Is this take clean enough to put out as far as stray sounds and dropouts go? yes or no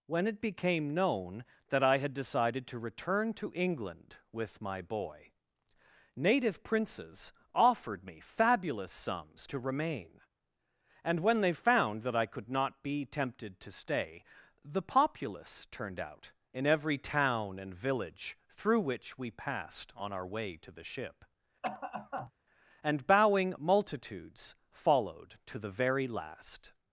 no